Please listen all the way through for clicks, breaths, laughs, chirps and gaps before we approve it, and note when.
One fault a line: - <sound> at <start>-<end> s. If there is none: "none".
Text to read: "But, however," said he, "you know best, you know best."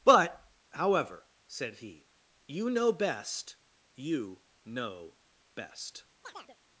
- chirp at 6.2-6.6 s